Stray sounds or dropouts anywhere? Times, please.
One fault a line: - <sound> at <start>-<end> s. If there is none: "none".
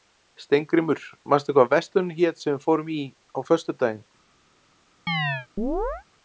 - chirp at 5.1-6.0 s